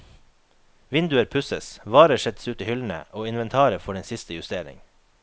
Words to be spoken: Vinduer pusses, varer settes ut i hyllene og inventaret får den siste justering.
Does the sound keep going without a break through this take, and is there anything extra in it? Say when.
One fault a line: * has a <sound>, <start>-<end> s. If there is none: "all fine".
all fine